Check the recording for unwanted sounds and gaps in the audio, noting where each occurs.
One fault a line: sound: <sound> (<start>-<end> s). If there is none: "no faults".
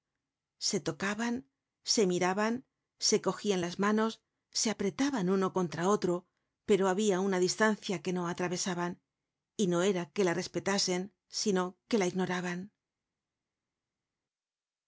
no faults